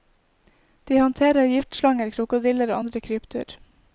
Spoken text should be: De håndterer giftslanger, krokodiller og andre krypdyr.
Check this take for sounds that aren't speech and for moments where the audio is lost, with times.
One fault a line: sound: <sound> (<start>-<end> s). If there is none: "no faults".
no faults